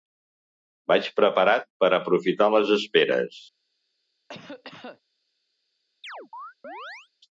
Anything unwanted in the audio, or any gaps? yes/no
yes